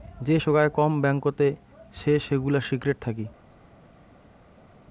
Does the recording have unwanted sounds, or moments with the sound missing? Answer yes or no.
no